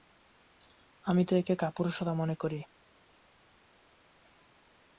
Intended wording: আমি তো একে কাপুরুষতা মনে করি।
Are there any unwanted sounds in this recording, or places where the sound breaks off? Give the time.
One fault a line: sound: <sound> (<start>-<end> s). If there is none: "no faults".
no faults